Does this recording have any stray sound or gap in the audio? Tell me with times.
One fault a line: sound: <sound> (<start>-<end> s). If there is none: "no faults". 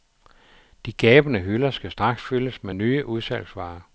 no faults